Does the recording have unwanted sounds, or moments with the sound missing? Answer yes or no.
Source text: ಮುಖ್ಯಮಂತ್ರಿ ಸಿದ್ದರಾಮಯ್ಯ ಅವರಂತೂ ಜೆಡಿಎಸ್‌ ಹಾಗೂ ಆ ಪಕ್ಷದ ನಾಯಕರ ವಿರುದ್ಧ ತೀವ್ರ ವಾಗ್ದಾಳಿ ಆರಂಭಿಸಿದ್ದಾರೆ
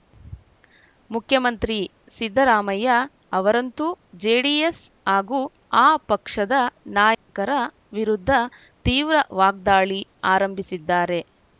yes